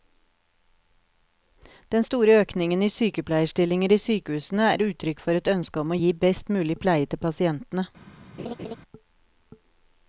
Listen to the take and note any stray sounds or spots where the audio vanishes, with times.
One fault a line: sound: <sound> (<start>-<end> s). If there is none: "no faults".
sound: laugh (8.4-8.8 s)